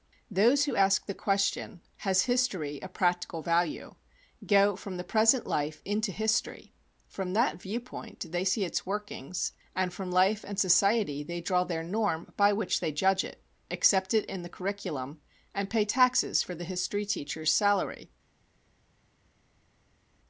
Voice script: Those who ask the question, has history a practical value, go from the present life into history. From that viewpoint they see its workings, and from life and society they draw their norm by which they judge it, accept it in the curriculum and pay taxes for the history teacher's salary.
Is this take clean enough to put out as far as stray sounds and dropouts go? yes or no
yes